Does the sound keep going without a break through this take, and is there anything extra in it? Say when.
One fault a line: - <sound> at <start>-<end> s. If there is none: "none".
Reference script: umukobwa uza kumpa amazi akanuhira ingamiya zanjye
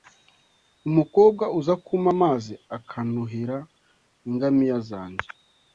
none